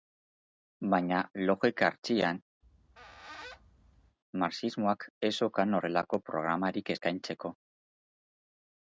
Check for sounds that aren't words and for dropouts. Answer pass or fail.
fail